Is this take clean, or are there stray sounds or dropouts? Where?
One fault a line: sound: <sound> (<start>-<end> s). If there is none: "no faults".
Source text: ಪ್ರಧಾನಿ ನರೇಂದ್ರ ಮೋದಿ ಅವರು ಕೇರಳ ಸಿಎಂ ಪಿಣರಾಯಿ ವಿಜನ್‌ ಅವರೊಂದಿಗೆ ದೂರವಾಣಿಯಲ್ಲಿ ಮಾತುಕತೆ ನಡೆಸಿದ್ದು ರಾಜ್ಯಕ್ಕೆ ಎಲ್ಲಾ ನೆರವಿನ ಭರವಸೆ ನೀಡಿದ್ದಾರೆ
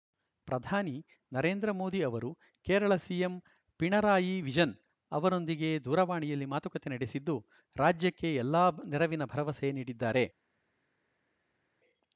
no faults